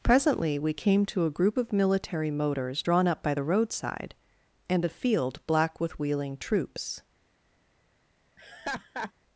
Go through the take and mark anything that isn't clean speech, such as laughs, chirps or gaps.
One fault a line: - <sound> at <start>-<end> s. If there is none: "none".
- laugh at 8.4-9.1 s